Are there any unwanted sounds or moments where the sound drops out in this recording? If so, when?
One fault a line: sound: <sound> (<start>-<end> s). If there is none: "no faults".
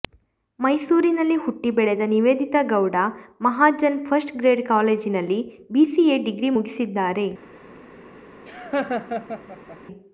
sound: laugh (8.5-9.8 s)